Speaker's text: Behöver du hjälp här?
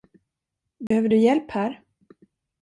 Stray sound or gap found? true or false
true